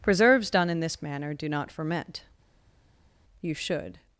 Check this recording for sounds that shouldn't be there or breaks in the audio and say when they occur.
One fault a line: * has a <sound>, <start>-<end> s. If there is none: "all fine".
all fine